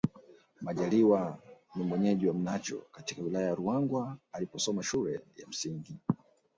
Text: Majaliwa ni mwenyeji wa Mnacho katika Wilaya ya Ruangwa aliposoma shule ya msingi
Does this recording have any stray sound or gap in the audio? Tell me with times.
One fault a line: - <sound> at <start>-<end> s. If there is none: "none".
none